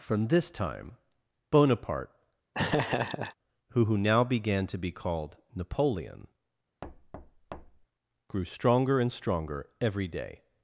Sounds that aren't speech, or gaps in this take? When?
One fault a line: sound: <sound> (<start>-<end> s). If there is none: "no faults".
sound: laugh (2.5-3.4 s)
sound: thud (6.8-7.9 s)